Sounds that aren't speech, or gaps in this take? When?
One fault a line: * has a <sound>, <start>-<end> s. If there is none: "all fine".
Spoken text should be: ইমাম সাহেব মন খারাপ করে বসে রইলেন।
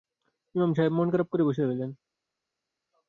all fine